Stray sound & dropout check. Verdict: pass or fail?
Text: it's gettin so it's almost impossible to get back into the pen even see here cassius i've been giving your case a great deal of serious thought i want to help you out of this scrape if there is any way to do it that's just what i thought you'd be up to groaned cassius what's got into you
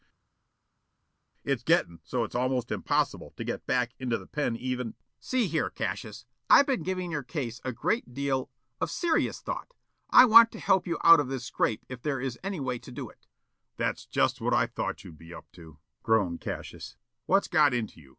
pass